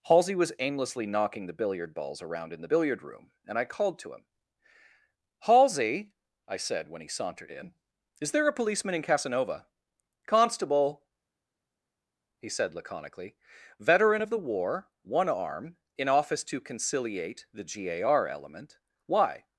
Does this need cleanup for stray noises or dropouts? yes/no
no